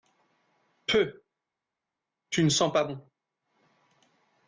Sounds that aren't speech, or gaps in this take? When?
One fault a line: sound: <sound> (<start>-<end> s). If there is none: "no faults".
no faults